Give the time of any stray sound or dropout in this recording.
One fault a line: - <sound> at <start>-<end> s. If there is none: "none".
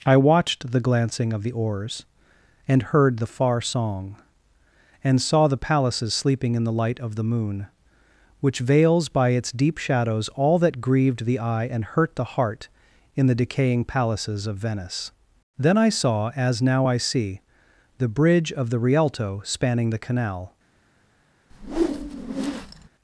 - whoosh at 21.5-22.9 s